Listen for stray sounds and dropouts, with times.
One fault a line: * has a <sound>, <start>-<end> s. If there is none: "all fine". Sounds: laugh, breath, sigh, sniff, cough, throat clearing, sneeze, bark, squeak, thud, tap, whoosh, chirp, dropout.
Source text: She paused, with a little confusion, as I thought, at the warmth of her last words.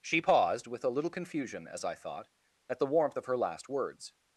all fine